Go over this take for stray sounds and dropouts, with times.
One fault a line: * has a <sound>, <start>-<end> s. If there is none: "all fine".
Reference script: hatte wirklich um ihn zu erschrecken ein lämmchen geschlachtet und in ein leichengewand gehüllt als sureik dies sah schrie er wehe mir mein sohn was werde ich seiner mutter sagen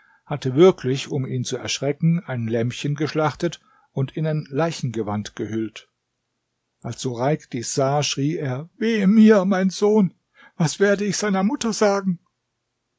all fine